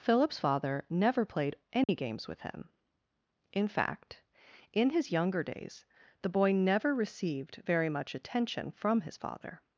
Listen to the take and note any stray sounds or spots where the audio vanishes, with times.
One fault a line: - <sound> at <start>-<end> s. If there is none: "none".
- dropout at 1.8-1.9 s